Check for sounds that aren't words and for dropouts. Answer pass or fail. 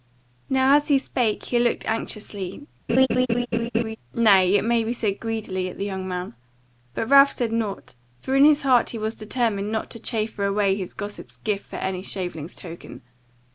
fail